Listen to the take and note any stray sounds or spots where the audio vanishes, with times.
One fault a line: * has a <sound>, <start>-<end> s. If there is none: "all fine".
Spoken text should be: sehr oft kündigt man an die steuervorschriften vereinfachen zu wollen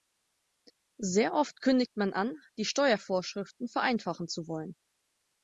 all fine